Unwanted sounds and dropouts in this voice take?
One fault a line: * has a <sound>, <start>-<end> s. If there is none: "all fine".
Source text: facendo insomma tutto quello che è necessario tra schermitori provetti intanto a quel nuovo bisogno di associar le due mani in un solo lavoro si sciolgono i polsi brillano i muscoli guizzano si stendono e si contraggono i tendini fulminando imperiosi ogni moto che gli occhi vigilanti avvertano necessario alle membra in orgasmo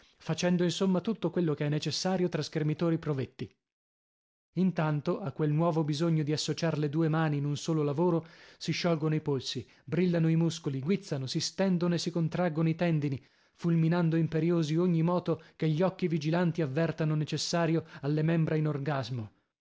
all fine